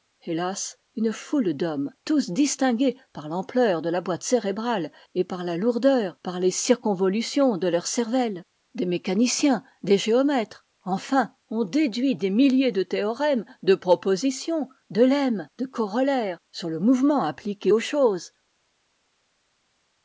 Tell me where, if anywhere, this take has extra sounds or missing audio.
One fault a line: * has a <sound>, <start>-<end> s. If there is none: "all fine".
all fine